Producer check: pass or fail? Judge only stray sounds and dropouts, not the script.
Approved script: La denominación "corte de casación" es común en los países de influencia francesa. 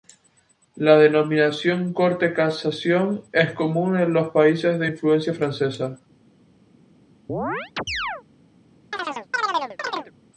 fail